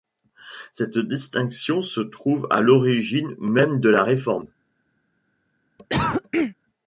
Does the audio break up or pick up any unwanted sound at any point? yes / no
yes